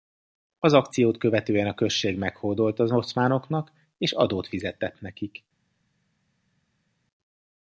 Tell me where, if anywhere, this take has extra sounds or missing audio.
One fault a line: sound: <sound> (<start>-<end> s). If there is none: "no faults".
no faults